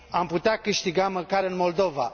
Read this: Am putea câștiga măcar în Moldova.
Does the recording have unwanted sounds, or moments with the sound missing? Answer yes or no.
no